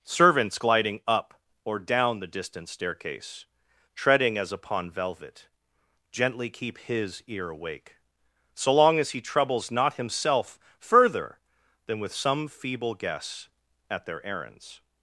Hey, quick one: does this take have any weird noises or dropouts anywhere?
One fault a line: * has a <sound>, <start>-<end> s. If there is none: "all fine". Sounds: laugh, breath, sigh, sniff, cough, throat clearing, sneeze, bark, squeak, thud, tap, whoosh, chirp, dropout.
all fine